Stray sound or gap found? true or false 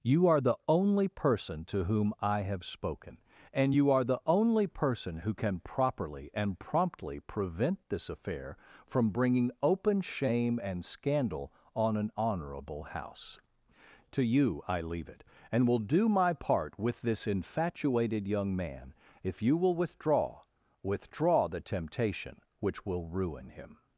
false